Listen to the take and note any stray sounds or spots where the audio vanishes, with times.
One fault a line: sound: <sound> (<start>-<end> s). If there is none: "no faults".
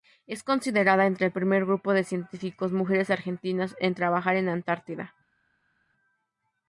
no faults